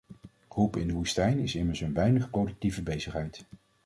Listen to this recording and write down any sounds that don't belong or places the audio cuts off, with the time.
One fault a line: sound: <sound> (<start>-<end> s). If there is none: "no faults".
no faults